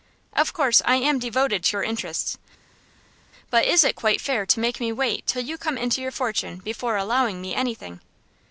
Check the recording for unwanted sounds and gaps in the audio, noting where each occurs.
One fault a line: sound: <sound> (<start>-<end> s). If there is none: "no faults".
no faults